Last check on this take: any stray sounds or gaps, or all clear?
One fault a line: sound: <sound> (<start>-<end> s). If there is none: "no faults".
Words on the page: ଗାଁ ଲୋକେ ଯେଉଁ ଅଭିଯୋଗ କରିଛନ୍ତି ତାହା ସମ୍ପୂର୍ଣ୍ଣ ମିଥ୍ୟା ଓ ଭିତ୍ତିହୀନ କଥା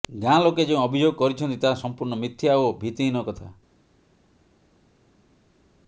no faults